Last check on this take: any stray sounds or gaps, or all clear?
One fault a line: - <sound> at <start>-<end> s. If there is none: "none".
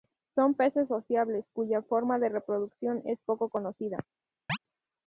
- chirp at 4.5-4.6 s